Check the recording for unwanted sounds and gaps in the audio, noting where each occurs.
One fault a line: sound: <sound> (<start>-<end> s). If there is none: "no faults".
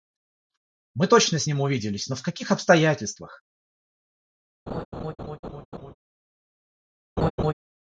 sound: laugh (4.7-5.9 s)
sound: laugh (7.2-7.5 s)